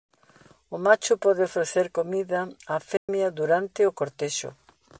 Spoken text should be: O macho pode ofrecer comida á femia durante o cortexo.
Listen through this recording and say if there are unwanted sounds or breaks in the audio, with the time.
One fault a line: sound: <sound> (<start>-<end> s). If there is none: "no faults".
sound: dropout (3.0-3.1 s)